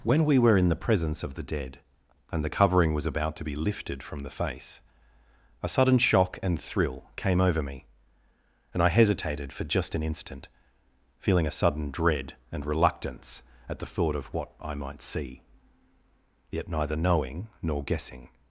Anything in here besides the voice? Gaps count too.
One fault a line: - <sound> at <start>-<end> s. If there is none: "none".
none